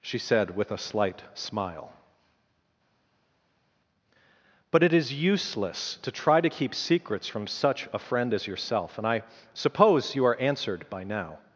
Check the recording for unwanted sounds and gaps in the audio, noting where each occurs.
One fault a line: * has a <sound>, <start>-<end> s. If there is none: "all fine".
all fine